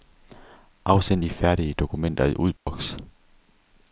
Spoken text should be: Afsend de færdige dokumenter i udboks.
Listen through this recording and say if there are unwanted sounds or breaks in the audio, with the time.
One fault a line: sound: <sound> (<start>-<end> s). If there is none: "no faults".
sound: dropout (2.6-2.7 s)